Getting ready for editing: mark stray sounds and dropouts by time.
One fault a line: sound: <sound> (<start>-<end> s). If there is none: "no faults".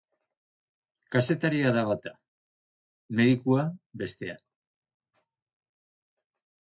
no faults